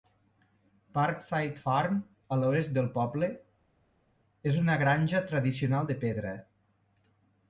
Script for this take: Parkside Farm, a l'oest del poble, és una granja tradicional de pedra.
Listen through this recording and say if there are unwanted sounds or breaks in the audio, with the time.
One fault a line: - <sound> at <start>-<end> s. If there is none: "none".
none